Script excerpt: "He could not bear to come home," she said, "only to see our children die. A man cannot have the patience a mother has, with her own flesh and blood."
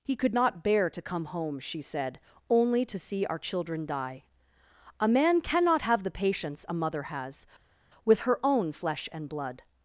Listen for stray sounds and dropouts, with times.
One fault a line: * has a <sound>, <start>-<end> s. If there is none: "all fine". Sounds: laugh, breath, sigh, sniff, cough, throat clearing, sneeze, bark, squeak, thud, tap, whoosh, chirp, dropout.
all fine